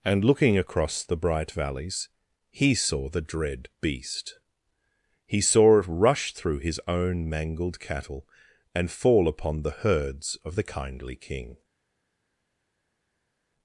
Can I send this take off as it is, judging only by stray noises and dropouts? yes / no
yes